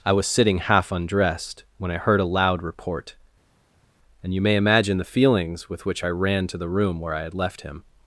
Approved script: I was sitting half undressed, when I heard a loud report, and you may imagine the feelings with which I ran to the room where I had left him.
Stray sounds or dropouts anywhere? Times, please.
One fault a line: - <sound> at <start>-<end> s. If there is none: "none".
none